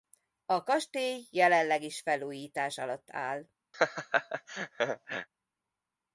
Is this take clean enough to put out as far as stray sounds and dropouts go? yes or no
no